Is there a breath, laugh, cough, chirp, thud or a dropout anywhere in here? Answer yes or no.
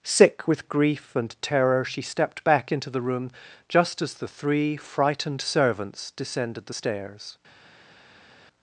no